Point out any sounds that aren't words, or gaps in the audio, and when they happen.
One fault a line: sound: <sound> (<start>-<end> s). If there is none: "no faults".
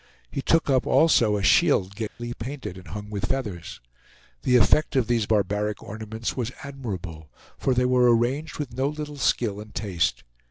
sound: dropout (2.1-2.2 s)